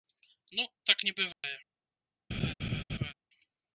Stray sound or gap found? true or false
true